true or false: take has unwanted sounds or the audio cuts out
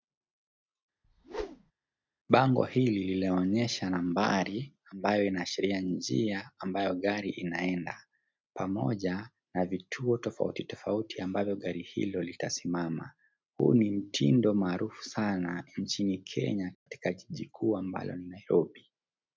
true